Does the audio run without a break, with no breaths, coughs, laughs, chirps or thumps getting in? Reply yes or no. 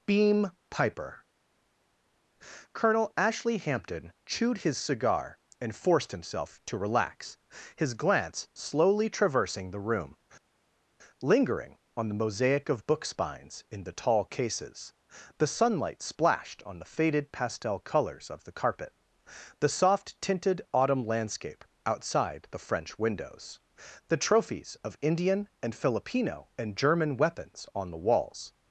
yes